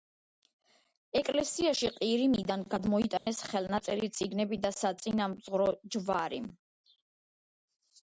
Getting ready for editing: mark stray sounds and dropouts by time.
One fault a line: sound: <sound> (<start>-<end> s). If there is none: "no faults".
sound: dropout (3.2-3.3 s)